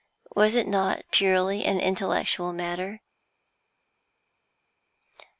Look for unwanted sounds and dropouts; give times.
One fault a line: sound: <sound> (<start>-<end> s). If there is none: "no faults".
no faults